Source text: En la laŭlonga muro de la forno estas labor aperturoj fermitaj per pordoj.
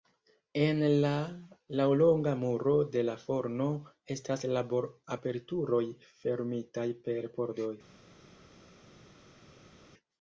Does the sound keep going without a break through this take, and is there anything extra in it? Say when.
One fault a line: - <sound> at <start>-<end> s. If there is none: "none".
none